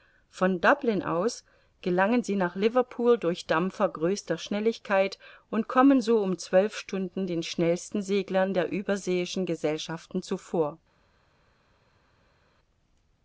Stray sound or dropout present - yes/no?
no